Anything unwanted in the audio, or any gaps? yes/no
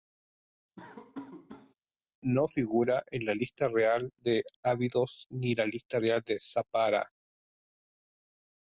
yes